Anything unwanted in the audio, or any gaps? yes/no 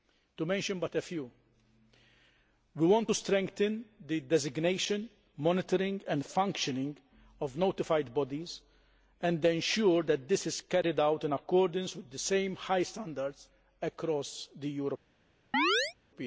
yes